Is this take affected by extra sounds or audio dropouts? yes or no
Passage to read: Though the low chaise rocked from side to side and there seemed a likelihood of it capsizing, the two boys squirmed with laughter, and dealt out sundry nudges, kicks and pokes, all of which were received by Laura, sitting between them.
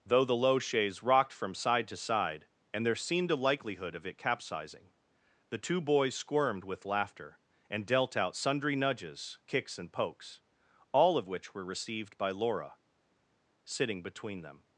no